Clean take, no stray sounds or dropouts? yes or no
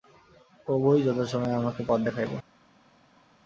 yes